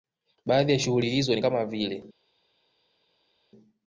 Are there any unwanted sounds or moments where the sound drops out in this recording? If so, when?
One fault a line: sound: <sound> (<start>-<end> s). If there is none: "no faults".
no faults